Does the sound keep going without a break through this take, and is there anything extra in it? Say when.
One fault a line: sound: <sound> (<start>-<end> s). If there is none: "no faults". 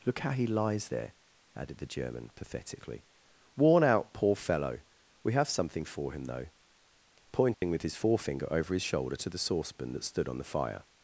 sound: dropout (7.5-7.6 s)